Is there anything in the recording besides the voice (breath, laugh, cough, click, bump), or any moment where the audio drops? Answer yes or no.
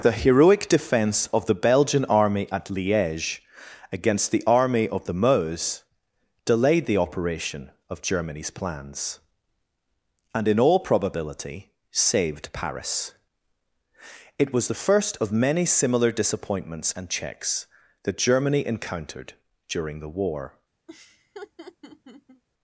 yes